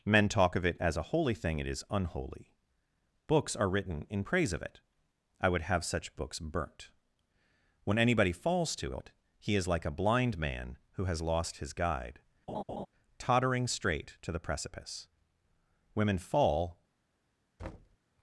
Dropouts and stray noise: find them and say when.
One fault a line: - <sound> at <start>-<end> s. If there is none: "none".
- laugh at 12.5-12.9 s
- thud at 17.6-18.0 s